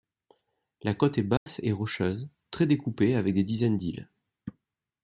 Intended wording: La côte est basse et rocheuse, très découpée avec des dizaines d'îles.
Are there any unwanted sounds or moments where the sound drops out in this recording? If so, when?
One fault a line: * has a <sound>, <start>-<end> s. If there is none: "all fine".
* has a dropout, 1.4-1.5 s